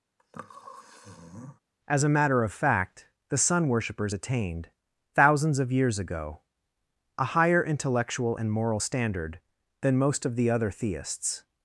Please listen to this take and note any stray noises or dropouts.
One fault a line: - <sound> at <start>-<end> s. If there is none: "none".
- sniff at 0.2-1.6 s